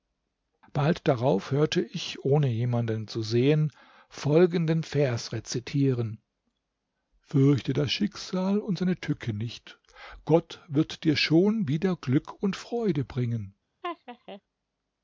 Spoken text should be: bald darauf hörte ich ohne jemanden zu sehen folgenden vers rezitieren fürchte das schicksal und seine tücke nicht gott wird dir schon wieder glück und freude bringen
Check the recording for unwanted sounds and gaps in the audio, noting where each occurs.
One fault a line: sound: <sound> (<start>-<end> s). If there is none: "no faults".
sound: laugh (13.8-14.4 s)